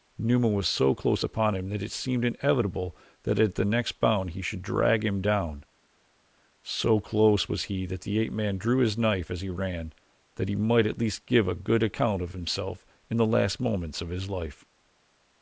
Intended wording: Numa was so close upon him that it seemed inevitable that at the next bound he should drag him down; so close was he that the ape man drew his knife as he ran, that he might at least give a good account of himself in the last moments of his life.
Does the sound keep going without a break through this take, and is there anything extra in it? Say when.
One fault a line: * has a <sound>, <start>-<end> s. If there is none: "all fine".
all fine